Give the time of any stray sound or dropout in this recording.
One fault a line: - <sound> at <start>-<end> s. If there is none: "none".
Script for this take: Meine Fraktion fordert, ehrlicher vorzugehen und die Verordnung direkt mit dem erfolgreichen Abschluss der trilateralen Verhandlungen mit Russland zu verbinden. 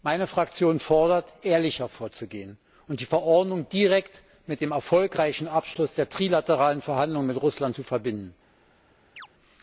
- chirp at 9.2-9.3 s